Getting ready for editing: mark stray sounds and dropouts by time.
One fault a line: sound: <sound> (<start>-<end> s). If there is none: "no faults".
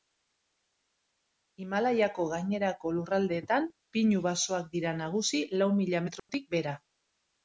sound: dropout (6.2-6.3 s)